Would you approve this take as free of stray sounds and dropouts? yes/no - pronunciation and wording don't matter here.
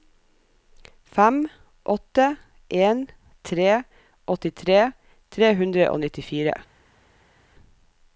yes